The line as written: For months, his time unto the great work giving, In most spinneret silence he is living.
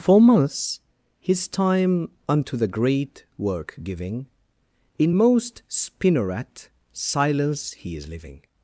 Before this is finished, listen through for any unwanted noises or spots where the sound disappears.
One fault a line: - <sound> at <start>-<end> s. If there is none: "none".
none